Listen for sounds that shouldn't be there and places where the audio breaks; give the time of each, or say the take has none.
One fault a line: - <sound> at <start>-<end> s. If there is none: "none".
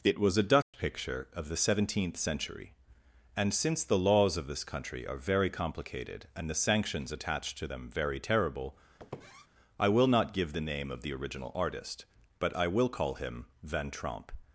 - dropout at 0.6-0.7 s
- squeak at 9.0-9.5 s